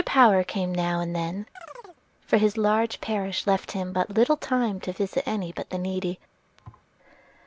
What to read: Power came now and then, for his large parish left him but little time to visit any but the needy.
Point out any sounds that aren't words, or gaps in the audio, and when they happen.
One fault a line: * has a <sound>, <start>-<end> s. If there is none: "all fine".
* has a chirp, 1.6-2.0 s
* has a thud, 6.6-6.9 s